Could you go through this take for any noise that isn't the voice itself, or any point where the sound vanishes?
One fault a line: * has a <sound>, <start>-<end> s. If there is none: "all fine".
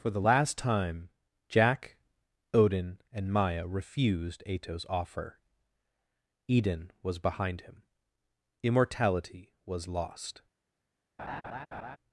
* has a laugh, 11.2-12.0 s